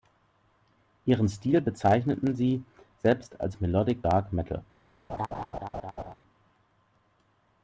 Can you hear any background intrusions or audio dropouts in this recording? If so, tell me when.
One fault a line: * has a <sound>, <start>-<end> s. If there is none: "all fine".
* has a laugh, 5.1-6.1 s